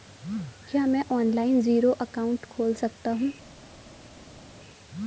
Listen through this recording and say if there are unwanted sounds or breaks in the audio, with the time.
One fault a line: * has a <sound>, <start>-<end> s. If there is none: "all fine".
all fine